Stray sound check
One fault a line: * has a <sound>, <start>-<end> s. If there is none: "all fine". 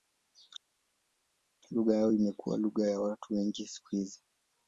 all fine